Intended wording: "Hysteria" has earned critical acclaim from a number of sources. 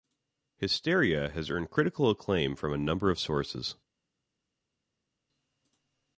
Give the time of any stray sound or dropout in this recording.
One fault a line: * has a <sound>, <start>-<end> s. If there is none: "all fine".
all fine